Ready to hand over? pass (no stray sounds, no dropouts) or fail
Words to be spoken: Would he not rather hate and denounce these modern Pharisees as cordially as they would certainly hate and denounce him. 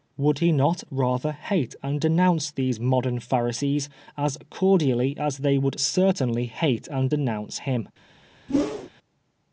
fail